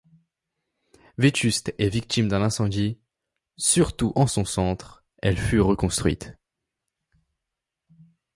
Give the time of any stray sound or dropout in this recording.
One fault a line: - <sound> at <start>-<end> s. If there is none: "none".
none